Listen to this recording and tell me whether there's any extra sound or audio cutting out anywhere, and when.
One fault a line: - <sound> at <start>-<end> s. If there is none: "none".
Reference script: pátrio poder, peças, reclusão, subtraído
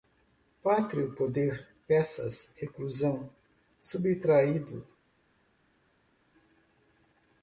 none